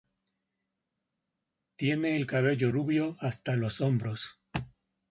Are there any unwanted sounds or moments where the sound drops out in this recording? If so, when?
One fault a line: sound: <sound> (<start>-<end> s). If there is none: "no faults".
no faults